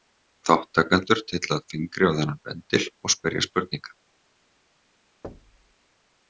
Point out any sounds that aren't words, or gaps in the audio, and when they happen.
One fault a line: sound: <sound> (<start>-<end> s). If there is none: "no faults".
sound: thud (5.2-5.7 s)